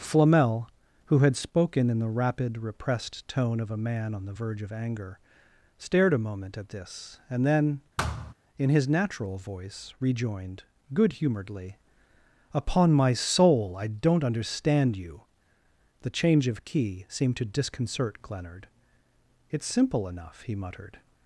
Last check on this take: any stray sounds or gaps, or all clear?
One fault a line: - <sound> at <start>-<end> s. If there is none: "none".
- thud at 8.0-8.3 s